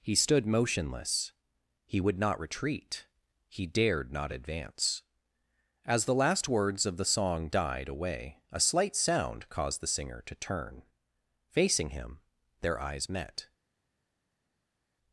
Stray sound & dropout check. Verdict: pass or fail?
pass